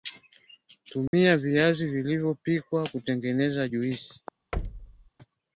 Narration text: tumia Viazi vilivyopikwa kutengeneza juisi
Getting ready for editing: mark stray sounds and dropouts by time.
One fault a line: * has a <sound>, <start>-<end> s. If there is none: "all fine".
* has a dropout, 1.1-1.1 s
* has a thud, 4.5-5.1 s